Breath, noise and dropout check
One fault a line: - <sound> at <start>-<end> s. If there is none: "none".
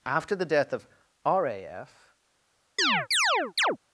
- chirp at 2.8-3.8 s